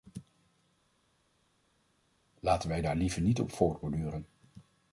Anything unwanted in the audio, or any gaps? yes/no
no